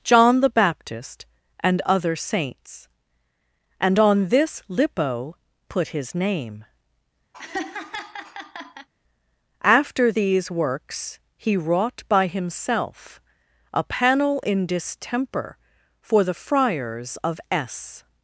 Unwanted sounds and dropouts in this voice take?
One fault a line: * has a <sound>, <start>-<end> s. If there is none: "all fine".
* has a laugh, 7.3-8.9 s